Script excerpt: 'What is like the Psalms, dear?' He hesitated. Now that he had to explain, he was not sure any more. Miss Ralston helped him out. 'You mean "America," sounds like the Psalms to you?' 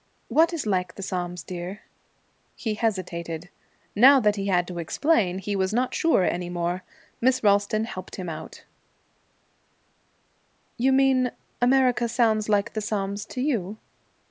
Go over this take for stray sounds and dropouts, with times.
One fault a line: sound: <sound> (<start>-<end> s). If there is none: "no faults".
no faults